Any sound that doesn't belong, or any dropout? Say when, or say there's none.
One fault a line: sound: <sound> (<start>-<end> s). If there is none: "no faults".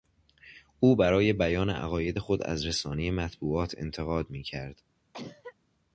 sound: cough (5.1-5.6 s)